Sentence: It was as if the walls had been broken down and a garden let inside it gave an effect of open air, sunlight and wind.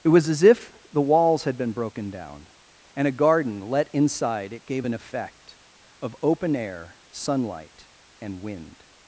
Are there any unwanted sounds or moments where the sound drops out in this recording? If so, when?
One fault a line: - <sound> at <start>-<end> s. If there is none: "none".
none